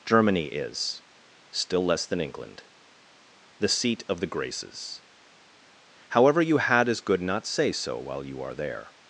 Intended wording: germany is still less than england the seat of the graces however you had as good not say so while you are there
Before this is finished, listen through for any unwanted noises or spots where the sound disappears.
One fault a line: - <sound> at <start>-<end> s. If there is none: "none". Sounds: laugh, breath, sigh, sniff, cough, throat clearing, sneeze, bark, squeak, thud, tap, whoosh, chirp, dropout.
none